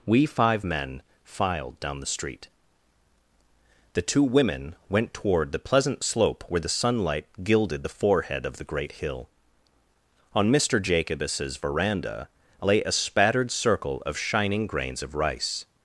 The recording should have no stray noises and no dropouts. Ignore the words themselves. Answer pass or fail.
pass